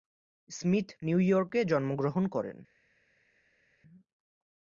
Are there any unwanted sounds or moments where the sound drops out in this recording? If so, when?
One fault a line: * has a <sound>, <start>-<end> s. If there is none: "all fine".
all fine